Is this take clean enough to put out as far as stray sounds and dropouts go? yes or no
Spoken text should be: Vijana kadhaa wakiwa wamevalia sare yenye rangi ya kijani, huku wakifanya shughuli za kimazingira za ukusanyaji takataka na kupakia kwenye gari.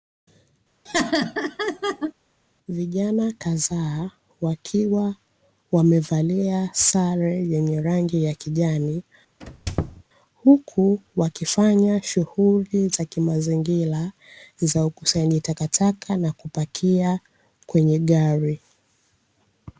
no